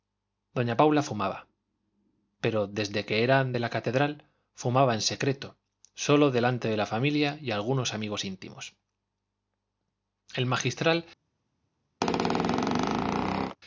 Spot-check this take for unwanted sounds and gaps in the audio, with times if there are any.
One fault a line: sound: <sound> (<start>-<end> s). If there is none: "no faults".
sound: squeak (12.0-13.6 s)